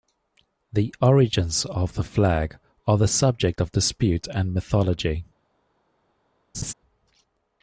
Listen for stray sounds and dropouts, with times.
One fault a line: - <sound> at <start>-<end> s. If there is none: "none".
- laugh at 6.5-6.7 s